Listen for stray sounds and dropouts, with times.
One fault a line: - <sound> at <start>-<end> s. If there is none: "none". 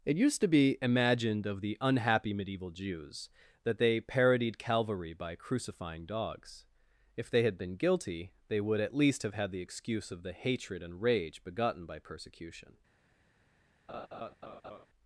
- laugh at 13.9-14.9 s